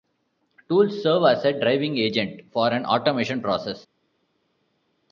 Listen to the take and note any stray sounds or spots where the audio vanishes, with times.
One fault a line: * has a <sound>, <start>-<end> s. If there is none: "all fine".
all fine